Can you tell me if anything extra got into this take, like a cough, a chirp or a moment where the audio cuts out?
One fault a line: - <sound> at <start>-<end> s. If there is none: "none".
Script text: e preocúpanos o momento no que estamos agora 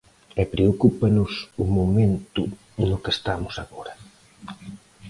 none